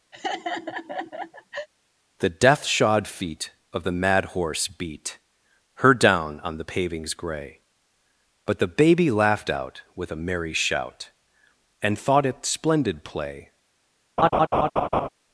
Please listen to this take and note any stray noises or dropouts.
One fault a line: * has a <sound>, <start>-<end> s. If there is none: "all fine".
* has a laugh, 0.1-1.7 s
* has a laugh, 14.2-15.1 s